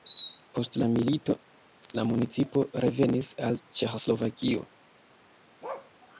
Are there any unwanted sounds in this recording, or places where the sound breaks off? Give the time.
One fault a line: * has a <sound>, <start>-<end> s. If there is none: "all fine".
* has a bark, 5.6-5.9 s